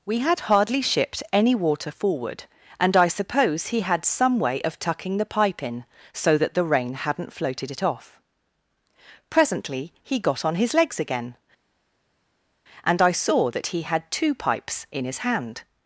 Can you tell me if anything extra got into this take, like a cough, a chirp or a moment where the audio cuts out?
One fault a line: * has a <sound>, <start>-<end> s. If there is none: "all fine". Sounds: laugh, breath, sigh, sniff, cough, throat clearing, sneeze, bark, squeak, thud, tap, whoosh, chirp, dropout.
all fine